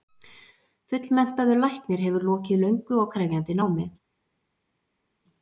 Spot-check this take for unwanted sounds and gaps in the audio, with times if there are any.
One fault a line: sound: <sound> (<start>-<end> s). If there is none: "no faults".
no faults